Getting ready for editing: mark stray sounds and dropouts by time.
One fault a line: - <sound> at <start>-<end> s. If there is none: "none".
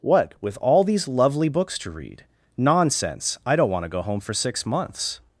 none